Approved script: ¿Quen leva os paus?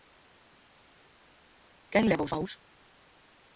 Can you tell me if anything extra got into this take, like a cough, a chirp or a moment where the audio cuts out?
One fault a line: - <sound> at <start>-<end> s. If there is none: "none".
none